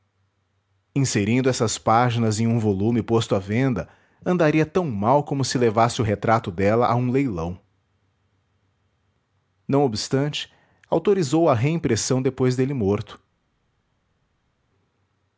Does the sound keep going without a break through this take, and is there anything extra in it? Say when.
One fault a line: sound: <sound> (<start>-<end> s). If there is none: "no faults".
no faults